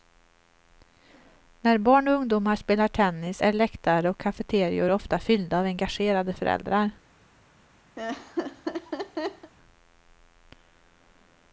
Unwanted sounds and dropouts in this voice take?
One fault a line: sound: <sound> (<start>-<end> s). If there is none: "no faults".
sound: laugh (8.0-9.5 s)